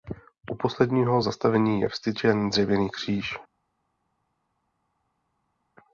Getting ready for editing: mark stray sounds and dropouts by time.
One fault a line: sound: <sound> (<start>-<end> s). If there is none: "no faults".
no faults